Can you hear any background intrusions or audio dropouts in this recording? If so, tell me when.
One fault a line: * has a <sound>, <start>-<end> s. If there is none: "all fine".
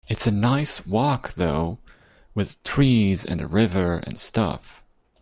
all fine